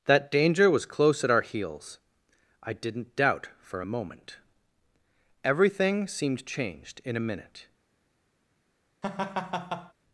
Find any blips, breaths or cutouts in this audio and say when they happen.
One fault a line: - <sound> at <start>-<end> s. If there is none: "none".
- laugh at 9.0-9.9 s